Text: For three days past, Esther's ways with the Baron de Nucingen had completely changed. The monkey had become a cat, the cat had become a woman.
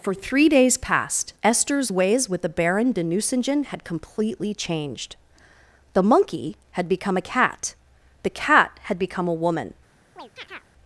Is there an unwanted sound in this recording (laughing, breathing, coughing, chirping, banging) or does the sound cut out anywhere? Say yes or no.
yes